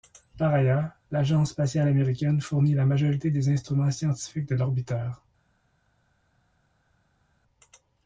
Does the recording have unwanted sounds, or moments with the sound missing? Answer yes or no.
no